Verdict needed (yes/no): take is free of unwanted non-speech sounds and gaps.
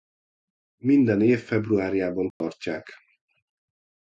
no